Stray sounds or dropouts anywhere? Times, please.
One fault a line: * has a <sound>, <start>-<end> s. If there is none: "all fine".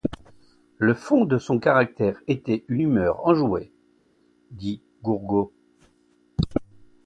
all fine